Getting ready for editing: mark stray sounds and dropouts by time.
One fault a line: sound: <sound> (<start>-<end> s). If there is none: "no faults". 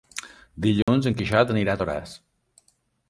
sound: dropout (0.8-0.9 s)